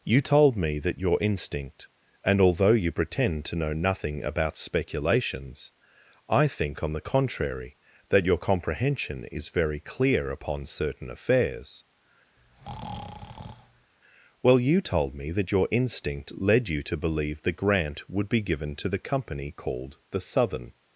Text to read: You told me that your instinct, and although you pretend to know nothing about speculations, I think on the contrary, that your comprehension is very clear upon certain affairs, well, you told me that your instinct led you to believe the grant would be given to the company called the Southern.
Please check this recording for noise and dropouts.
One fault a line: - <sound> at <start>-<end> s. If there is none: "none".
- breath at 12.4-13.9 s